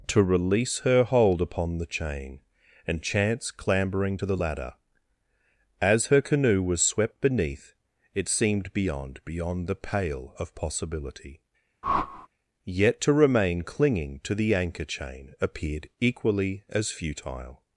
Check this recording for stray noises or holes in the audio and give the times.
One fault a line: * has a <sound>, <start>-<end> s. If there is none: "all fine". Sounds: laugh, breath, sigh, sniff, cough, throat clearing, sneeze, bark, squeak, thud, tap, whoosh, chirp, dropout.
* has a whoosh, 11.8-12.3 s